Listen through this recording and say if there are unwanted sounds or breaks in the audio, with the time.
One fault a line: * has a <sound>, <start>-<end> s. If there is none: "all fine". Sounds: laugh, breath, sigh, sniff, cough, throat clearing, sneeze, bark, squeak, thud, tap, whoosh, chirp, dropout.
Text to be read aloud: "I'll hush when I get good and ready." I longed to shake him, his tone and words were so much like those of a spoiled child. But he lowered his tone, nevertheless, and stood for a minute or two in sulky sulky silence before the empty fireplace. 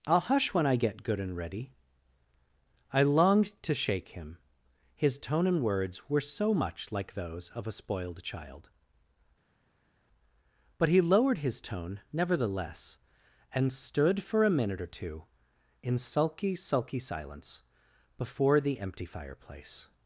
all fine